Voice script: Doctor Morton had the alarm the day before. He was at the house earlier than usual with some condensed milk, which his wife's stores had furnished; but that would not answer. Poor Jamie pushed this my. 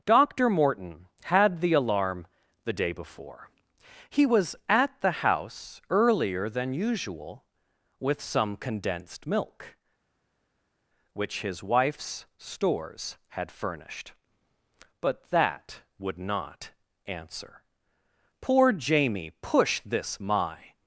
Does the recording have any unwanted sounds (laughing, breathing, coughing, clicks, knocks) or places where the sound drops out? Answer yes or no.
no